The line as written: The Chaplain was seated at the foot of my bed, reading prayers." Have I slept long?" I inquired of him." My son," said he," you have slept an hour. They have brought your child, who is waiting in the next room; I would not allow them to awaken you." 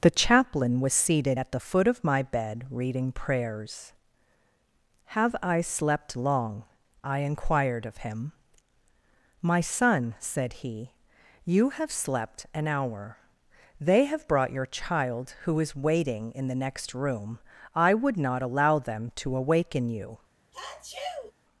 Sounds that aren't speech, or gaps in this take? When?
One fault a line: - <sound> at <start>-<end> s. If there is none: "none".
- sneeze at 20.5-21.3 s